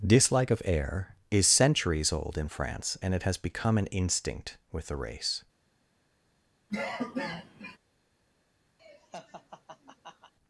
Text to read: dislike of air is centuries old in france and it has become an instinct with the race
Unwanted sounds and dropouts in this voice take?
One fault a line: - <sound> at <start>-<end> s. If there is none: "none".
- cough at 6.7-7.8 s
- laugh at 8.8-10.3 s